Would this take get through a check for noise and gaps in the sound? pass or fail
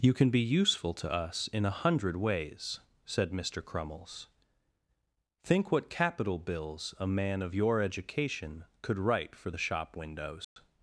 fail